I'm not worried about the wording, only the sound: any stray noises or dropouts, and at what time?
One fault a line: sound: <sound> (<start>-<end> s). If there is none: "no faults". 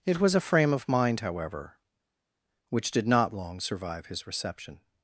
no faults